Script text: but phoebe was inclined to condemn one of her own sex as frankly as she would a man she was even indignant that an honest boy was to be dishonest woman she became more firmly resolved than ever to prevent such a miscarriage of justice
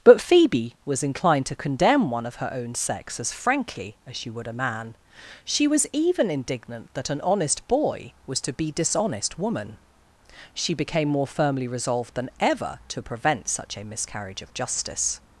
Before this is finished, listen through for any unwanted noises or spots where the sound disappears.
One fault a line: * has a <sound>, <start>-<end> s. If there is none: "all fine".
all fine